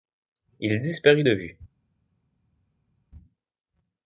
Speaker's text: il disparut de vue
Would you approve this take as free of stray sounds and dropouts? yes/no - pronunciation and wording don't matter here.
yes